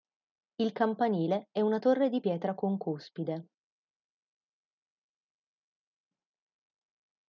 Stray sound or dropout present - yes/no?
no